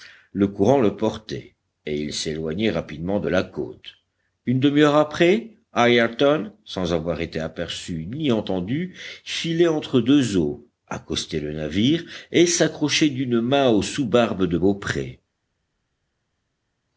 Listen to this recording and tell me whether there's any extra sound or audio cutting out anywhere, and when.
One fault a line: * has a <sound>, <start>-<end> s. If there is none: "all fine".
all fine